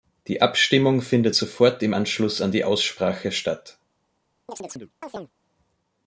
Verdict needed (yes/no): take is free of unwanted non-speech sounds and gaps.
no